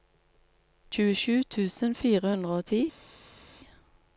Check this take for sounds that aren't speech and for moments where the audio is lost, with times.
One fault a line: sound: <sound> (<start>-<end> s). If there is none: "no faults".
no faults